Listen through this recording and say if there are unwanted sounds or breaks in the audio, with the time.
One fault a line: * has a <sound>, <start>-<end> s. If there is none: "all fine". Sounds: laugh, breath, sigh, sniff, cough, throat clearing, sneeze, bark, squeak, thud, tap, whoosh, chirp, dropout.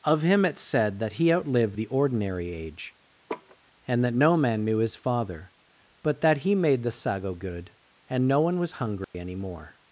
* has a laugh, 3.3-3.6 s
* has a dropout, 9.0-9.1 s